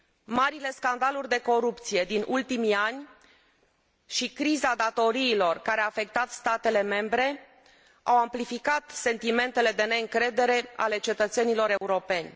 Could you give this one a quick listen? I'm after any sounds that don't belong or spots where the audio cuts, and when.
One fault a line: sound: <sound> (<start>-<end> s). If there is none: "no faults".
sound: dropout (11.8-11.8 s)